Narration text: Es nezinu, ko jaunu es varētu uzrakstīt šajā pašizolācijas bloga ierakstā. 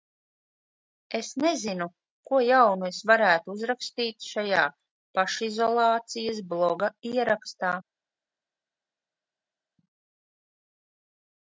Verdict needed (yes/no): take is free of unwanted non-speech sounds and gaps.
yes